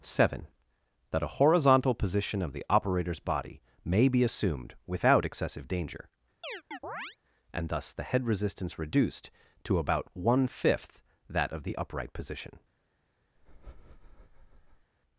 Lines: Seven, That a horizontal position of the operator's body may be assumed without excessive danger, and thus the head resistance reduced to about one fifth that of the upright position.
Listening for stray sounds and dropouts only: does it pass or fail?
fail